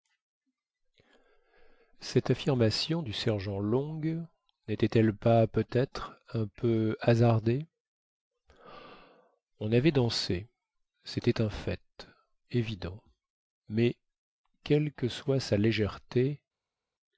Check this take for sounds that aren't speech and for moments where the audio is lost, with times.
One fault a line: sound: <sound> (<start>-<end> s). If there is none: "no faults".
no faults